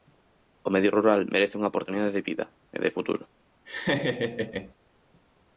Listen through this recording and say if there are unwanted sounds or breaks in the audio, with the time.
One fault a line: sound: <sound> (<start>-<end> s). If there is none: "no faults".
sound: laugh (3.7-4.7 s)